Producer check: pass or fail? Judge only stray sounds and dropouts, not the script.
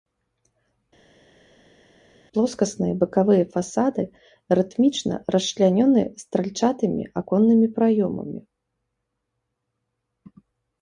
pass